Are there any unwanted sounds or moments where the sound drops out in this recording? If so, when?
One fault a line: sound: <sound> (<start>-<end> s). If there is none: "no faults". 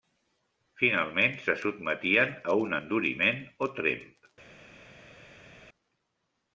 no faults